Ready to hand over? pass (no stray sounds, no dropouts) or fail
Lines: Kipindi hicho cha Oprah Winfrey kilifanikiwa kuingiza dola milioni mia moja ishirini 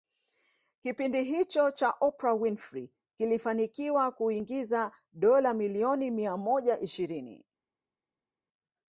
pass